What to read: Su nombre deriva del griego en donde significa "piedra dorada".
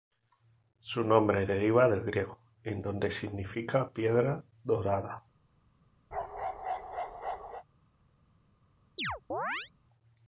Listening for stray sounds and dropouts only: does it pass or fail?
fail